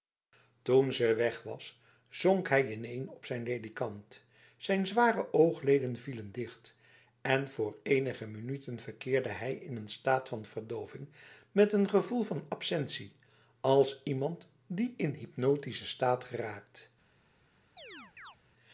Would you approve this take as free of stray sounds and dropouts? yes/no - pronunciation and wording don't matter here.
no